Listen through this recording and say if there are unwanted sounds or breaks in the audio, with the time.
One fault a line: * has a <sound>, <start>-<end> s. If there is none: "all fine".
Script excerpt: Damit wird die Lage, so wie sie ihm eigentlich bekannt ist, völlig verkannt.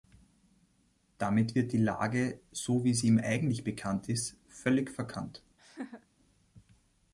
* has a laugh, 5.6-6.1 s